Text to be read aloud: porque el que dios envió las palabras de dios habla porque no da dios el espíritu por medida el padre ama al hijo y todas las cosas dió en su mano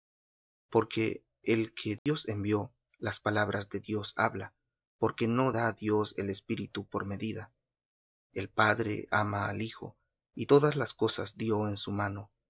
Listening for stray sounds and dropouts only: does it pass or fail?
fail